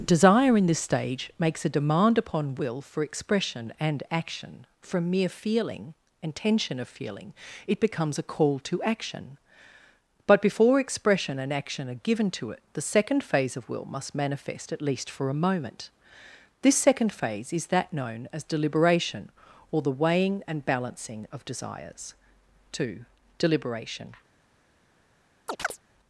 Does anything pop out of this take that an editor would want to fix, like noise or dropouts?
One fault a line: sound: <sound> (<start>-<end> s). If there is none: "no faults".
sound: chirp (25.5-25.8 s)